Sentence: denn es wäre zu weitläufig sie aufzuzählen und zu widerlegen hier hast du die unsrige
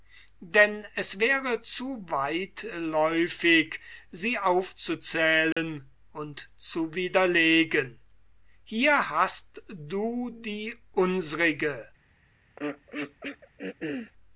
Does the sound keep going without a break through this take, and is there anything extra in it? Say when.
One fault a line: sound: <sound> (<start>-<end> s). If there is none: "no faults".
sound: dropout (5.5-5.6 s)
sound: throat clearing (12.6-14.1 s)